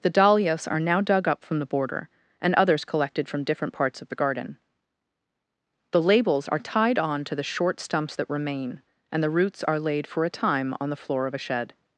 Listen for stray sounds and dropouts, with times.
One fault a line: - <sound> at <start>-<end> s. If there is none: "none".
none